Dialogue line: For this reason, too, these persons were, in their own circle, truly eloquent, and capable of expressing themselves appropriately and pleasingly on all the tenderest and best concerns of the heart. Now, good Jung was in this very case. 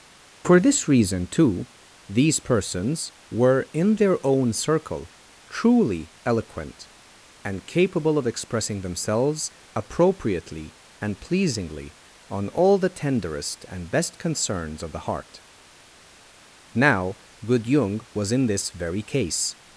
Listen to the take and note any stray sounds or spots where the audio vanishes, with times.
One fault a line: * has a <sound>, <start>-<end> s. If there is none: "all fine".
all fine